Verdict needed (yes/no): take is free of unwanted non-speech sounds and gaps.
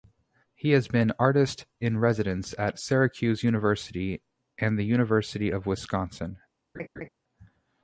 no